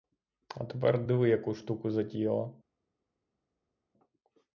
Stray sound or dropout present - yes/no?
no